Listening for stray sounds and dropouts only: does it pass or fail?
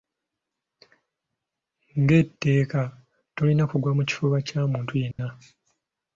fail